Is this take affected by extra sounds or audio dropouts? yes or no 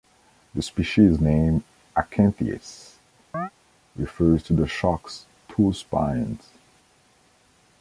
yes